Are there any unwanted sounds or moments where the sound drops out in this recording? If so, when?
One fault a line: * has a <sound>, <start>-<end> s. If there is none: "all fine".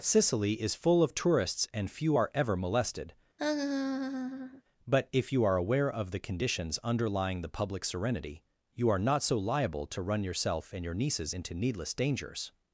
* has a laugh, 3.4-4.6 s